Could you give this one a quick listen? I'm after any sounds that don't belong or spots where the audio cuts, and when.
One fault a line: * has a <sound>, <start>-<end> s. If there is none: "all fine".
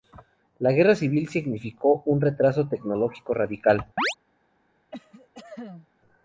* has a chirp, 4.0-4.2 s
* has a cough, 4.9-5.9 s